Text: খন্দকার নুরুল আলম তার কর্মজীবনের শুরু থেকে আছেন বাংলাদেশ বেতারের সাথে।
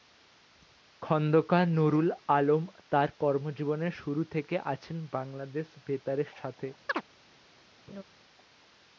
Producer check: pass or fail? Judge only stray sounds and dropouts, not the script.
fail